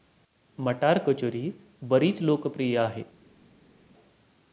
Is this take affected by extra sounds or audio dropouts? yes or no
no